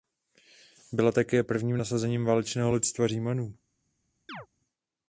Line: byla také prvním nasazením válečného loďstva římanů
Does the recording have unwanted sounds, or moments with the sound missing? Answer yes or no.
yes